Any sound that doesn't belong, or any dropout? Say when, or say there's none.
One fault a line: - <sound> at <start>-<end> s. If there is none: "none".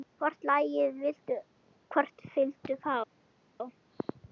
none